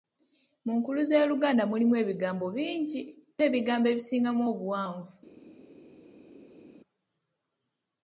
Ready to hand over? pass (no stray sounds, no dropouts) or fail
pass